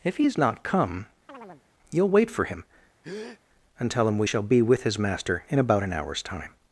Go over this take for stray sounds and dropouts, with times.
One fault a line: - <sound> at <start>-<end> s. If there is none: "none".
- chirp at 1.3-1.6 s
- breath at 3.0-3.4 s